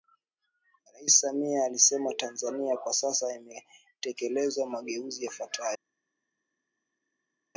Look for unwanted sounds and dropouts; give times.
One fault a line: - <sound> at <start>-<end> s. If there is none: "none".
none